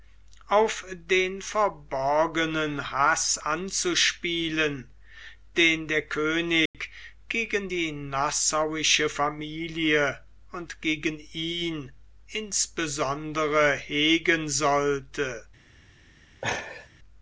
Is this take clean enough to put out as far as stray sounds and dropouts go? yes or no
no